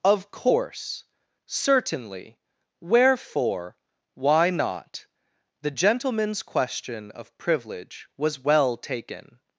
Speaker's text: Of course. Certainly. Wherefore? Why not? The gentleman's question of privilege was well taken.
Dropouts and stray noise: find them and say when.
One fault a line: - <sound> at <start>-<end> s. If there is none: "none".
none